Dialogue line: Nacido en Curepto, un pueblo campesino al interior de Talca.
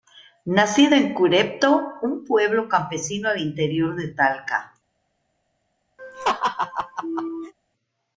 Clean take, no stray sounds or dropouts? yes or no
no